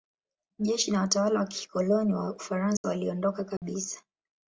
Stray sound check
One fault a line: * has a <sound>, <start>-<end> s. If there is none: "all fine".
* has a dropout, 2.8-2.8 s
* has a dropout, 3.6-3.6 s